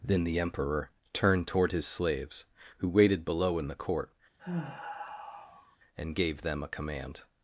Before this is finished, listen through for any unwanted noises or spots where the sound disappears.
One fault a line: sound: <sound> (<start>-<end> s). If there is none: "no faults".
sound: sigh (4.4-5.8 s)